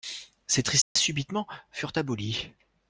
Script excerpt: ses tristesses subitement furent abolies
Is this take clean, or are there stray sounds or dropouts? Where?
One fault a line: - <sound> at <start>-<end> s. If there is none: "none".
- dropout at 0.8-1.0 s